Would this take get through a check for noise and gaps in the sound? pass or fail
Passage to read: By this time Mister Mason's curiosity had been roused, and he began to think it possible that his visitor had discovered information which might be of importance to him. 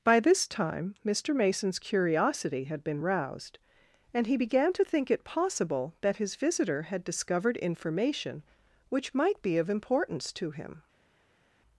pass